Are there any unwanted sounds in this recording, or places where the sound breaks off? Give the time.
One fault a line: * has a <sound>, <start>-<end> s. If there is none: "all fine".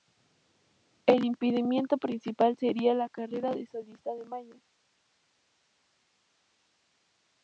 all fine